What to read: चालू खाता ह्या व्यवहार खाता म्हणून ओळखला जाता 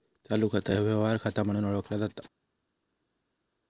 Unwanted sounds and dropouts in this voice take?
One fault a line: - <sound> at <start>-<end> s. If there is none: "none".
none